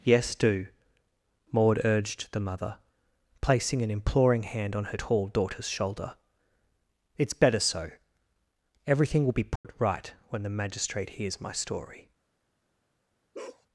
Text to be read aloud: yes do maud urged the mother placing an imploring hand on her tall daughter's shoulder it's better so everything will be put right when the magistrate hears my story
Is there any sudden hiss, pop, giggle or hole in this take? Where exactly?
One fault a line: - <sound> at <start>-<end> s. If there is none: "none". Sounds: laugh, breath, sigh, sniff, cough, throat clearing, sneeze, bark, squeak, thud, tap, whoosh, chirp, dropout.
- dropout at 9.6-9.6 s
- bark at 13.3-13.7 s